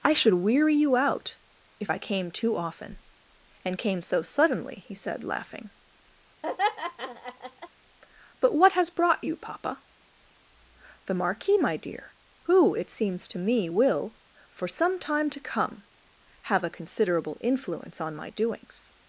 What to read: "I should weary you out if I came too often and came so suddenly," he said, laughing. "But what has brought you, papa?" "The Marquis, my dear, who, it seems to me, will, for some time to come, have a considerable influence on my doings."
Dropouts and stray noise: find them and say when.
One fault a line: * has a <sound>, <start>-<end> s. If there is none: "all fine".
* has a laugh, 6.4-7.7 s